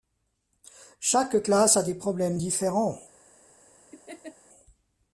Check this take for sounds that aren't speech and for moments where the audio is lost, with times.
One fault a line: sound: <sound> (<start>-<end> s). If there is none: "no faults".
sound: laugh (3.9-4.4 s)